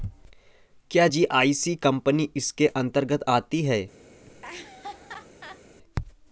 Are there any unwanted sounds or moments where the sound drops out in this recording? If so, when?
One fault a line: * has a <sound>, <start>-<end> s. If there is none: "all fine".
* has a laugh, 4.3-5.6 s